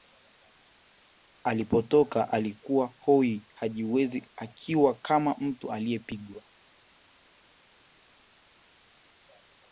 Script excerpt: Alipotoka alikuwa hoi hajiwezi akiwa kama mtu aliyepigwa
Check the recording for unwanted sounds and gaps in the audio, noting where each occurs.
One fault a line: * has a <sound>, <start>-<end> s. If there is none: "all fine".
all fine